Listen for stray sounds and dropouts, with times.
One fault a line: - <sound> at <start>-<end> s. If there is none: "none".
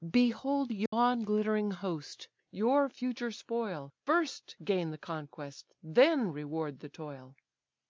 - dropout at 0.9-0.9 s